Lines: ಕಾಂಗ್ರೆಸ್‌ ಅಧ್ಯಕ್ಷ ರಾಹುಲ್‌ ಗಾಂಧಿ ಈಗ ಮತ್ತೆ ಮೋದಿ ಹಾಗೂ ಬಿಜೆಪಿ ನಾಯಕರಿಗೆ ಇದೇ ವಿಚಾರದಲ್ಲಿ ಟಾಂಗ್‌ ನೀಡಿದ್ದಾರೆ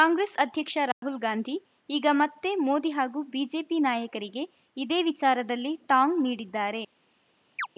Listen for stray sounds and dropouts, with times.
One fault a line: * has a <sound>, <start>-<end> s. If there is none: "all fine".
* has a dropout, 0.9-1.0 s
* has a chirp, 7.6-7.7 s